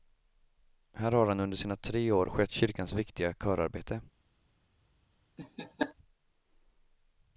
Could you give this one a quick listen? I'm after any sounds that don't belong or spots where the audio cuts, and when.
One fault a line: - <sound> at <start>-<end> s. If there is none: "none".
- laugh at 5.4-5.9 s